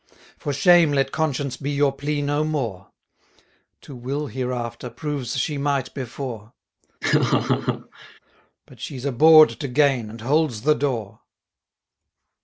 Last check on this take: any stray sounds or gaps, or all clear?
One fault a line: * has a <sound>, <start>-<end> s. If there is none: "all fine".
* has a laugh, 7.0-8.2 s